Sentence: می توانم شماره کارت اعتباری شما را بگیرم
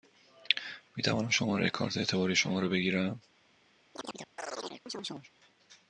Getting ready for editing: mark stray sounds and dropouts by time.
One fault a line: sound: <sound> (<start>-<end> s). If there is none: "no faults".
sound: chirp (3.9-5.3 s)